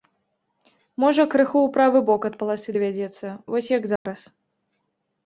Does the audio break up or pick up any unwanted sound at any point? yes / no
yes